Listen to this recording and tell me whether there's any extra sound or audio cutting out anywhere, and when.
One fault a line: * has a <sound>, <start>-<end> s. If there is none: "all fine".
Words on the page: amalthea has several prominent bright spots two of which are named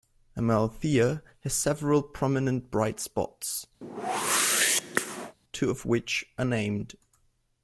* has a whoosh, 3.8-5.4 s